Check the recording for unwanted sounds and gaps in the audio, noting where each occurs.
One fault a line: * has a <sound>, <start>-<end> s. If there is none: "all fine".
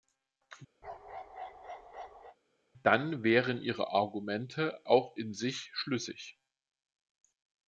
* has a bark, 0.8-2.4 s